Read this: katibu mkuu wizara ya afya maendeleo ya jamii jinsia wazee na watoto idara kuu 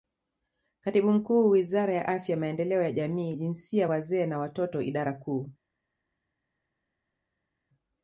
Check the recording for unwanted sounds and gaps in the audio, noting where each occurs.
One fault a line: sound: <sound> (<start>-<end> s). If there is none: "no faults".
no faults